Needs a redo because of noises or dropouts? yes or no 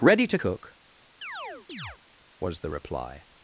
yes